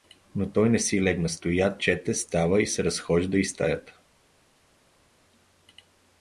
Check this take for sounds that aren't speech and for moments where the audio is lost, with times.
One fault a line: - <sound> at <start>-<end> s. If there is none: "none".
none